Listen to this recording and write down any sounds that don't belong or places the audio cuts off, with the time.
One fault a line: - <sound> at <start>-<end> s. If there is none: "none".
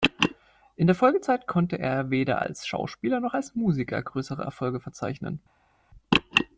none